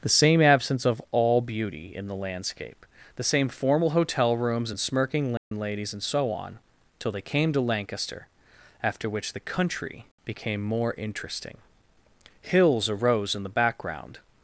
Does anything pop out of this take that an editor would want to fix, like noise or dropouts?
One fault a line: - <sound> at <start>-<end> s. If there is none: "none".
- dropout at 5.4-5.5 s